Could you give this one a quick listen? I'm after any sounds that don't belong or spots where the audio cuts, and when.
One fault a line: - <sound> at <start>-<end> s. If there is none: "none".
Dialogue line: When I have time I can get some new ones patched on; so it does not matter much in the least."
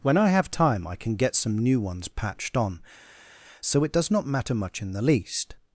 none